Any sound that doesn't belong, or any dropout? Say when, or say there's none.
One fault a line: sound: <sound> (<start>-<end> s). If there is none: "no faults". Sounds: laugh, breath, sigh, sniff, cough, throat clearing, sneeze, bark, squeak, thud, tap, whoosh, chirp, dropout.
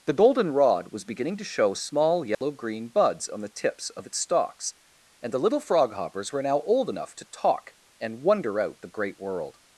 sound: dropout (2.3-2.4 s)